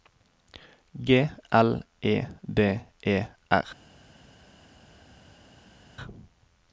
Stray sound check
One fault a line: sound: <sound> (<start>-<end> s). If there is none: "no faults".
no faults